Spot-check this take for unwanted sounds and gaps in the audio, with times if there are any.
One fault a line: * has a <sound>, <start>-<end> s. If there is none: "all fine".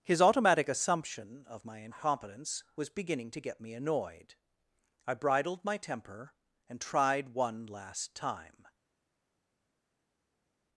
all fine